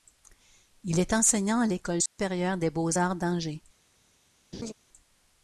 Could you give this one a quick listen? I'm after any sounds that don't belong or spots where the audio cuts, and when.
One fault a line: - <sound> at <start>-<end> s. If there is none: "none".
- dropout at 2.1-2.2 s
- laugh at 4.5-4.7 s